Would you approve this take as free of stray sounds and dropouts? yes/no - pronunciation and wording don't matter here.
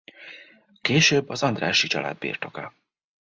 yes